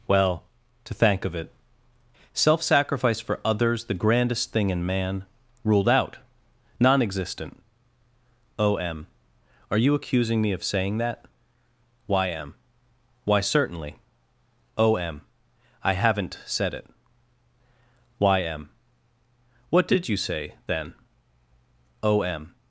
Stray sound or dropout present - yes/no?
no